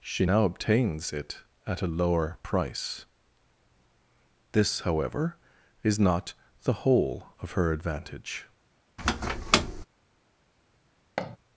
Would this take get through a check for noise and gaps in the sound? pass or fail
fail